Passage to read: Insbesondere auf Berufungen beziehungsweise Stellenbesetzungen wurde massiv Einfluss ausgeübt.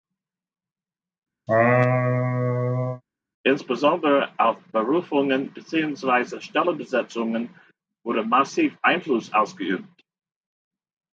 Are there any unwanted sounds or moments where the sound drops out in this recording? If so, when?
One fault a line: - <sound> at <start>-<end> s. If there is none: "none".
- laugh at 1.5-3.0 s